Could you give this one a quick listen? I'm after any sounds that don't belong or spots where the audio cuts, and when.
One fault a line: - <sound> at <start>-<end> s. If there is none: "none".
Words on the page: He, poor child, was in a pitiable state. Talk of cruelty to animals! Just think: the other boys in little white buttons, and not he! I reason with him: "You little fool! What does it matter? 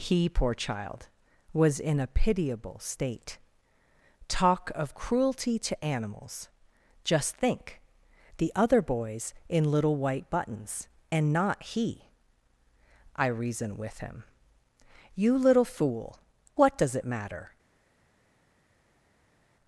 none